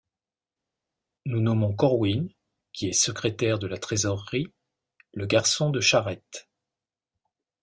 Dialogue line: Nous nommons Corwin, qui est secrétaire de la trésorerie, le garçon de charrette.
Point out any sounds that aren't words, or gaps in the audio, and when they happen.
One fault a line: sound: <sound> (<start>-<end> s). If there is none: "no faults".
no faults